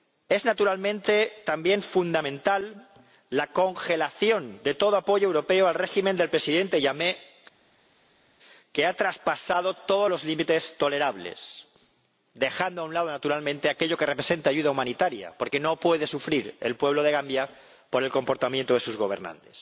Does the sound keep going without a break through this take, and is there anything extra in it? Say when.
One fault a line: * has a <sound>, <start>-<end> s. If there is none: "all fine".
all fine